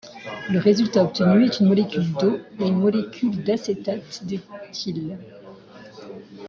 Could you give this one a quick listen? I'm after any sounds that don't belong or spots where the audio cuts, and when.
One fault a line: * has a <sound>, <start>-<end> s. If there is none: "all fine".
all fine